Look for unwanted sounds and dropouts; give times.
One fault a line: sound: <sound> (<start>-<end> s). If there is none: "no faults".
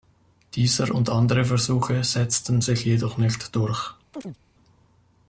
sound: chirp (4.1-4.4 s)